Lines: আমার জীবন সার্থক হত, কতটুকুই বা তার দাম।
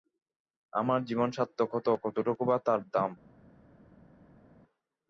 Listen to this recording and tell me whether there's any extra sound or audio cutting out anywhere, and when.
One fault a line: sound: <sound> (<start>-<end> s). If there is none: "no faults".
no faults